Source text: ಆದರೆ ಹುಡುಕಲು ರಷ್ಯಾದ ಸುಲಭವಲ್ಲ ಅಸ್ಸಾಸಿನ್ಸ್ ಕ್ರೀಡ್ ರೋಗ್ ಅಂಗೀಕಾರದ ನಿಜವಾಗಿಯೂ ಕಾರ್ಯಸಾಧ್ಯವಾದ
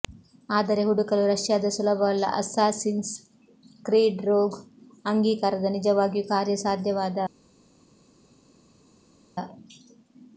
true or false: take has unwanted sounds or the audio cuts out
false